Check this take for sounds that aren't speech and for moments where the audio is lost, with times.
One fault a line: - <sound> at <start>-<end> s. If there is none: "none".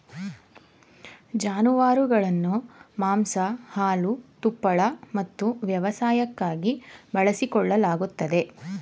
none